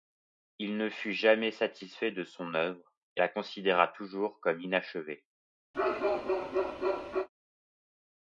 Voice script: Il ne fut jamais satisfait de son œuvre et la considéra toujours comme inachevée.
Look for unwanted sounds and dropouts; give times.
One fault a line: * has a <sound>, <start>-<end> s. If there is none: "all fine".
* has a bark, 5.7-7.3 s